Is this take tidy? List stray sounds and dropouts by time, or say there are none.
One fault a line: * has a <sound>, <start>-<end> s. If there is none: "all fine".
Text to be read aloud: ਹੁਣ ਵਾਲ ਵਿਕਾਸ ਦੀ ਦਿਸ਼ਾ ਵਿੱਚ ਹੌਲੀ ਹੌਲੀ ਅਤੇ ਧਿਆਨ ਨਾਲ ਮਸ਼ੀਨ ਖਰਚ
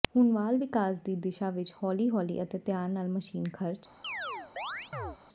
* has a chirp, 4.0-5.2 s